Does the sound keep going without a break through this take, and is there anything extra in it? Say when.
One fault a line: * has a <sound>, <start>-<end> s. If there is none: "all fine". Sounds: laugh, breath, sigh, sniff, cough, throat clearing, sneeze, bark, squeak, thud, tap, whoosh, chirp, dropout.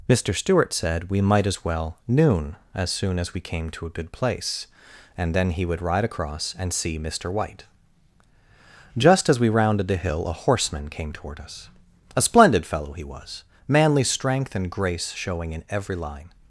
all fine